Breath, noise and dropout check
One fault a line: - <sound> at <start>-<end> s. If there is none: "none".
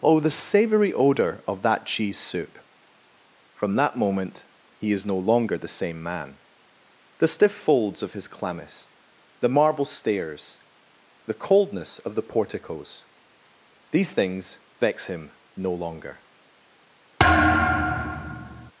- thud at 17.2-18.7 s